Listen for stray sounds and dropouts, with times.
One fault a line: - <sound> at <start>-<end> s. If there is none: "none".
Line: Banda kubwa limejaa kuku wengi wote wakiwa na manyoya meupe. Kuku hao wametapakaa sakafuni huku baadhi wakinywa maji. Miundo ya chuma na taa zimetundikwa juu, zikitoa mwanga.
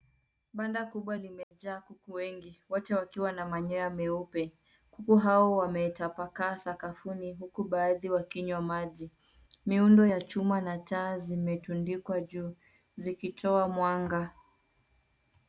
- dropout at 1.4-1.5 s